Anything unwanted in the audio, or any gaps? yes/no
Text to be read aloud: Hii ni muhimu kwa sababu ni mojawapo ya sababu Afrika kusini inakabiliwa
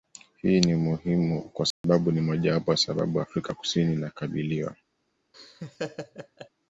yes